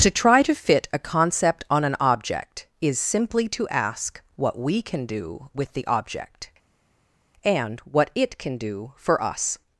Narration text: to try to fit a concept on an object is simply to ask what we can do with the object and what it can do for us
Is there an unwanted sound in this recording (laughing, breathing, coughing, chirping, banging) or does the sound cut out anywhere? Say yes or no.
no